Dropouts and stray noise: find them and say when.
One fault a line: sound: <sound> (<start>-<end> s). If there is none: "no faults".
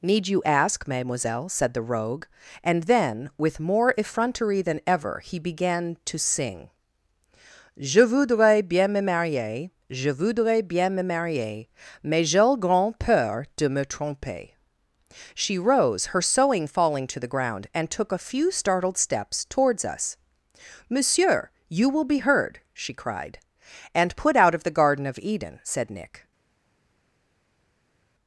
no faults